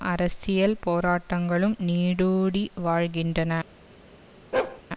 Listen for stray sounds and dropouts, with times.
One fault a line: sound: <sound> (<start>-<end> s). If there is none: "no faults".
sound: bark (4.5-4.8 s)